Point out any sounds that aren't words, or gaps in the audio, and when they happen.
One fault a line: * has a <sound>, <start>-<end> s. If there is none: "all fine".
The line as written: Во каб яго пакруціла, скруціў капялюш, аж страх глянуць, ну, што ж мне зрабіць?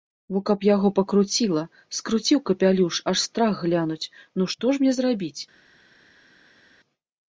all fine